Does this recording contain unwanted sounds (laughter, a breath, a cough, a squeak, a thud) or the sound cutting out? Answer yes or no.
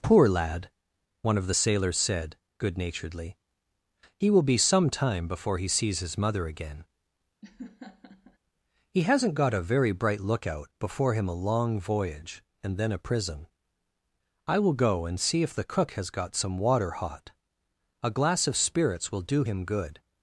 yes